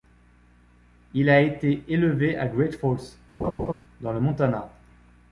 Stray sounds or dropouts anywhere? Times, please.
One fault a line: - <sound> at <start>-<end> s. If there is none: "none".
- laugh at 3.4-3.7 s